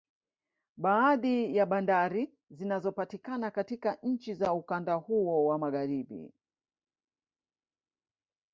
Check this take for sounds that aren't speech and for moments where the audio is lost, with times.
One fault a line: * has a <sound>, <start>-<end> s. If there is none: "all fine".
all fine